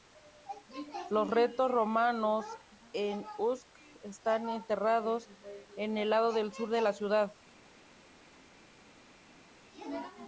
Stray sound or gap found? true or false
false